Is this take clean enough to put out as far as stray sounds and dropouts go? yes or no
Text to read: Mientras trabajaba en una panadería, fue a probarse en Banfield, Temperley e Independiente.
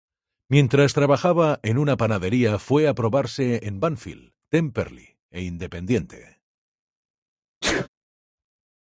no